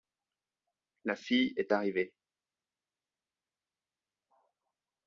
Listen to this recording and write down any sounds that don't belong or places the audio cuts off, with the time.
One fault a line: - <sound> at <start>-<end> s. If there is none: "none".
none